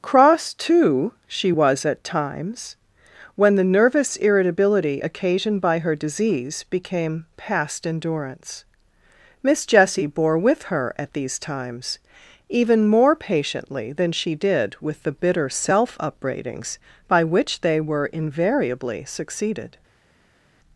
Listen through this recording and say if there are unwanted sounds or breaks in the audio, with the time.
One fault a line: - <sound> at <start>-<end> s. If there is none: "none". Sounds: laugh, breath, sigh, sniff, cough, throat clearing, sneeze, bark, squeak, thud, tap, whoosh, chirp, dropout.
none